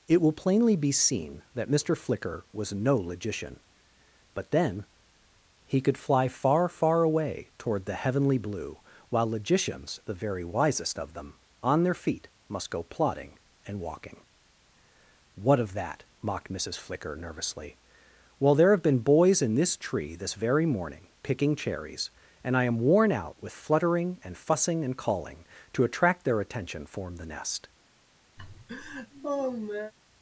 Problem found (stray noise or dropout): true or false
true